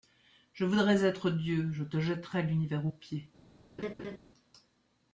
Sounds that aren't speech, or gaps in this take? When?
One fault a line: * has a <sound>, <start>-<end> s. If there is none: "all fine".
* has a laugh, 3.8-4.2 s